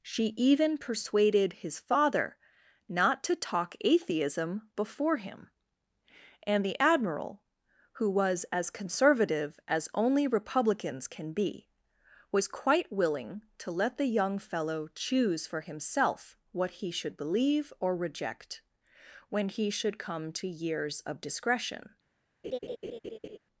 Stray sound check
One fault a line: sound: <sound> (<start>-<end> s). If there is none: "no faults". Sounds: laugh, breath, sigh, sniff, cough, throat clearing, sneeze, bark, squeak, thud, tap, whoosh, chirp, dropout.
sound: laugh (22.4-23.4 s)